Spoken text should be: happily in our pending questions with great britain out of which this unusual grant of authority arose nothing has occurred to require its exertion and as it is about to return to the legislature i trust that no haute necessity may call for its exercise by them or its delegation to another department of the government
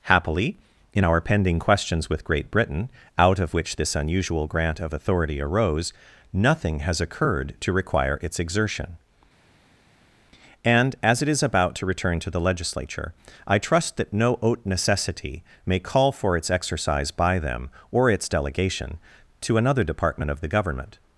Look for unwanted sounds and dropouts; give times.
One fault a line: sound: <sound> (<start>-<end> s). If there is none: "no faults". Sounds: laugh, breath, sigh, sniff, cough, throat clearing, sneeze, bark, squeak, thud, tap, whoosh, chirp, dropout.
no faults